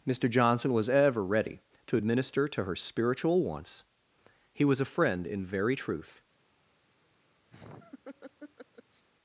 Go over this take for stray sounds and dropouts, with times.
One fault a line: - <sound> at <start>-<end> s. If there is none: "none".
- laugh at 7.5-9.0 s